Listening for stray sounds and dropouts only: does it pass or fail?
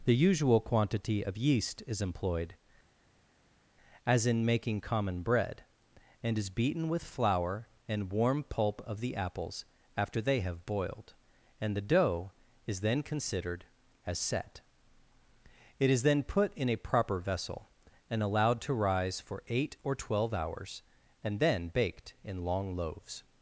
pass